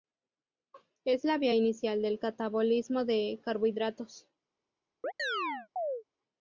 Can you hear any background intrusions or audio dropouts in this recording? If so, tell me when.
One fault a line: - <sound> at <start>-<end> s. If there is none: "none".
- chirp at 5.0-6.0 s